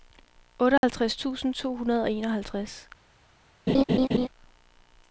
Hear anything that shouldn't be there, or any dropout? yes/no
yes